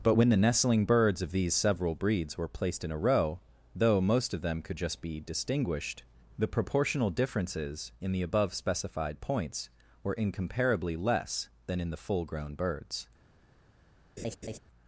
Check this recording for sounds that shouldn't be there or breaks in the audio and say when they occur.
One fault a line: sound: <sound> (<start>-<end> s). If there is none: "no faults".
sound: laugh (14.2-14.6 s)